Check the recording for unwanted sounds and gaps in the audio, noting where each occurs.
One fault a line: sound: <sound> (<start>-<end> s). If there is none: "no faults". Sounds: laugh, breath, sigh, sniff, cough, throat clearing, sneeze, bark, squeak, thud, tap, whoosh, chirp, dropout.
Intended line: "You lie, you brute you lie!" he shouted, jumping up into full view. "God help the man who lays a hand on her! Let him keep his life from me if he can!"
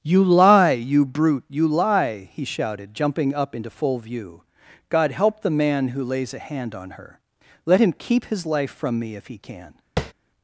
sound: tap (10.0-10.1 s)